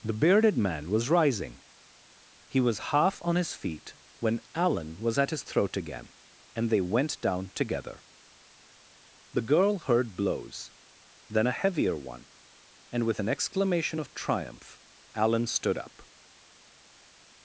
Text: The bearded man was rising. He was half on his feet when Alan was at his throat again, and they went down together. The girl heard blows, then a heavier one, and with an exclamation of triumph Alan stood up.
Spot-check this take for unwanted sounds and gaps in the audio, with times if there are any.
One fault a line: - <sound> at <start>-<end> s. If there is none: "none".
none